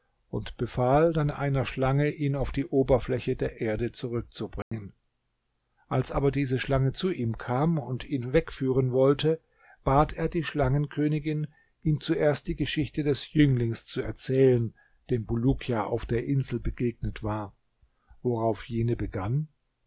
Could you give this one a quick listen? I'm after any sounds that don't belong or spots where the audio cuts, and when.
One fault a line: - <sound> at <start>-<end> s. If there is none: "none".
- dropout at 4.6-4.7 s